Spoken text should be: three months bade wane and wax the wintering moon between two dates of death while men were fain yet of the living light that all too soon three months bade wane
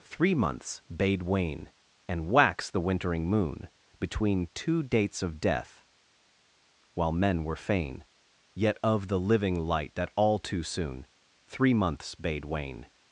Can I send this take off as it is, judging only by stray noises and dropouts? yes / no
yes